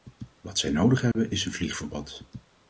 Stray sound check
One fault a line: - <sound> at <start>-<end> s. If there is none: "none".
- dropout at 1.1-1.1 s